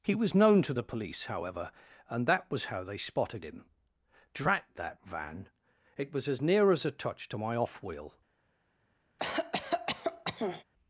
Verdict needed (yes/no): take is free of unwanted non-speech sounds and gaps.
no